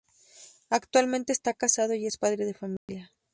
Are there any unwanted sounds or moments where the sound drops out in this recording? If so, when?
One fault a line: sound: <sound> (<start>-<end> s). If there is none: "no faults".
sound: dropout (2.8-2.9 s)